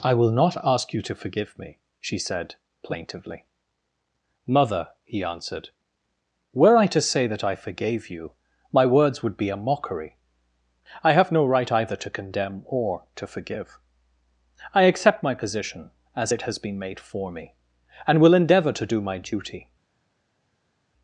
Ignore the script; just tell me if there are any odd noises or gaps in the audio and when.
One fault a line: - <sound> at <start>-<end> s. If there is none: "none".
none